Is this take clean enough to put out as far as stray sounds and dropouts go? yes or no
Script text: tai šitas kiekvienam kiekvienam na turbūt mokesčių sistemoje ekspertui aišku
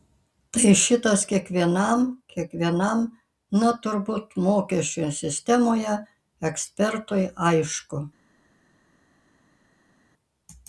yes